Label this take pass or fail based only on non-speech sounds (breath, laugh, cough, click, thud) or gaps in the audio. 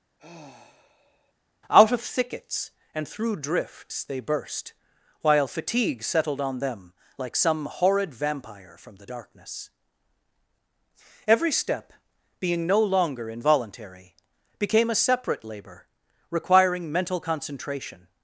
fail